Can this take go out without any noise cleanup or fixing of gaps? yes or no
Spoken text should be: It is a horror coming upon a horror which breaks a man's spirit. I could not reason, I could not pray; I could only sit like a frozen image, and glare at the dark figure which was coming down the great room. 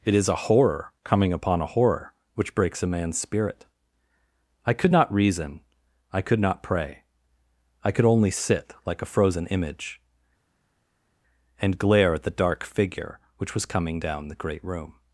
yes